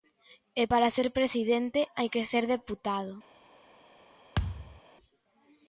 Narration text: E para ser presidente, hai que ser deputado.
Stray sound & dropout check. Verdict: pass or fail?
fail